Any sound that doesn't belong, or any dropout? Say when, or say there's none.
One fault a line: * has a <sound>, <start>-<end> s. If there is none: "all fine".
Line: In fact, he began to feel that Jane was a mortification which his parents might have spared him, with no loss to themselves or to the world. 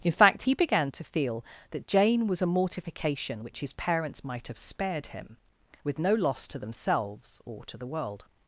all fine